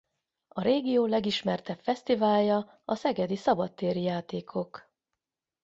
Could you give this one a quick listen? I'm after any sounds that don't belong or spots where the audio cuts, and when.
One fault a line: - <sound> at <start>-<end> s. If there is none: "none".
none